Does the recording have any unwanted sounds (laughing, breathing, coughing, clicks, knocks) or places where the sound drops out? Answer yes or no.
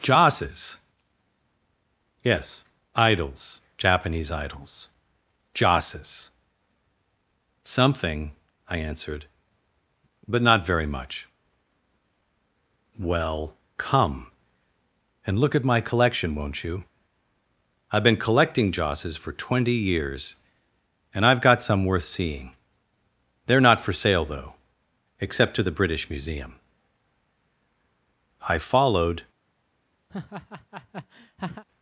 yes